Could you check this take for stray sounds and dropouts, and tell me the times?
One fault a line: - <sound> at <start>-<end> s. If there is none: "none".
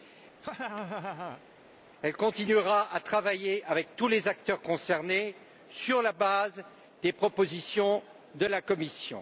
- laugh at 0.4-1.4 s